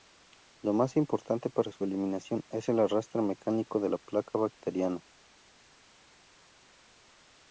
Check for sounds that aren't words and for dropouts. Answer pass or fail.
pass